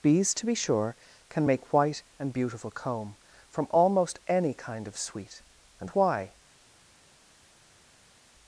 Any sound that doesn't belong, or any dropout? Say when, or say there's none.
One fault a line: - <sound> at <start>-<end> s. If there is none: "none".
none